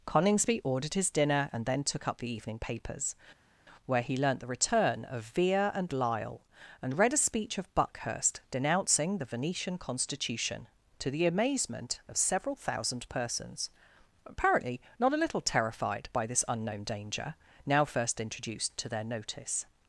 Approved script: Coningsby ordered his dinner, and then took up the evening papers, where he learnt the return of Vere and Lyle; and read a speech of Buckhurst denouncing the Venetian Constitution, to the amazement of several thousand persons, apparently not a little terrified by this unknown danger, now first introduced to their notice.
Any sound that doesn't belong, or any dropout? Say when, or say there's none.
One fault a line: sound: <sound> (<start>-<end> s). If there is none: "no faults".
no faults